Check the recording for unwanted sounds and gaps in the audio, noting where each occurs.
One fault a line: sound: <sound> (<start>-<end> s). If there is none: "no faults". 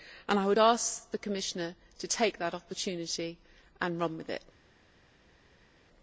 no faults